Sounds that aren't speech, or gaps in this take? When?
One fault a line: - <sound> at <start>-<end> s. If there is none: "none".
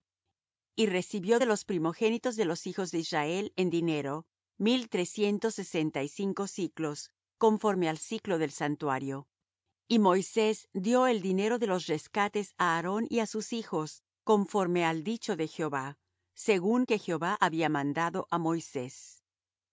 none